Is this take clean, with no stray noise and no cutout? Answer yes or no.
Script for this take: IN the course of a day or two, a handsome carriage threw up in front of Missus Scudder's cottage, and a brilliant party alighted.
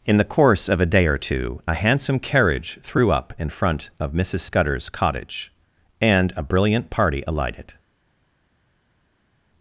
yes